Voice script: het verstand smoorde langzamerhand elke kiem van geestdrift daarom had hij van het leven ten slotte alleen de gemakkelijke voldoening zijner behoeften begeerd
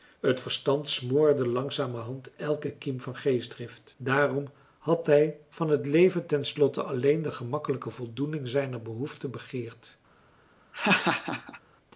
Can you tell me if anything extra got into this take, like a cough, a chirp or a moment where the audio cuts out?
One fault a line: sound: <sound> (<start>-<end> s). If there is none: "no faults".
sound: laugh (10.7-11.6 s)